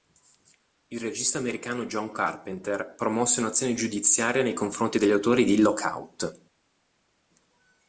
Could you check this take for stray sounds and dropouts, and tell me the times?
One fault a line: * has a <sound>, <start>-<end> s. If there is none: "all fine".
all fine